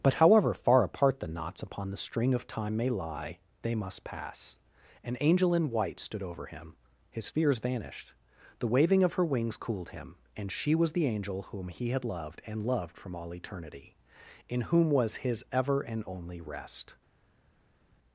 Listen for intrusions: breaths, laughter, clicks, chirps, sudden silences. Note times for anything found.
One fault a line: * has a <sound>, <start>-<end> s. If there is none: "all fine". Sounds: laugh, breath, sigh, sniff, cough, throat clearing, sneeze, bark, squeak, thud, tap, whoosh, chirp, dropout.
all fine